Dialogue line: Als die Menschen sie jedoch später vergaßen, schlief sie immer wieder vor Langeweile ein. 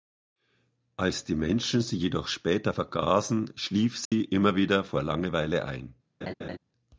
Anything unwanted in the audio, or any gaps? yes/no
yes